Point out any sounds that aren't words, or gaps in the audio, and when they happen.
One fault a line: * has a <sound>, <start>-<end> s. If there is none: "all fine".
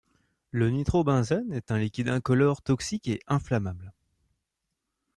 all fine